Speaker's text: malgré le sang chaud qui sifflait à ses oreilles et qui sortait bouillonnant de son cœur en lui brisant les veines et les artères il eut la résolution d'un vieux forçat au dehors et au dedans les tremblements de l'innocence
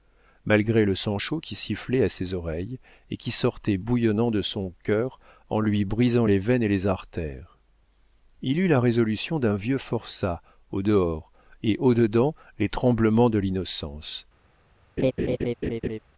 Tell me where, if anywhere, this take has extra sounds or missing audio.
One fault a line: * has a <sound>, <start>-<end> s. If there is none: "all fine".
* has a laugh, 15.0-16.0 s